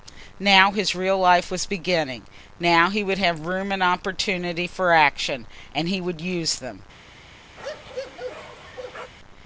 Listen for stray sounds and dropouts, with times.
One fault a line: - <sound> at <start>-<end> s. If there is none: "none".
- bark at 7.6-9.1 s